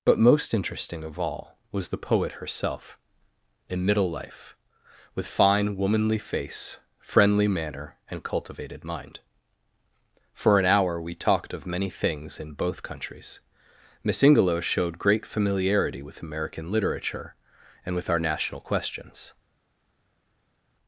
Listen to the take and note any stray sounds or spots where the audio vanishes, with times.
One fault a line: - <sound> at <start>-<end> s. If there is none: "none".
none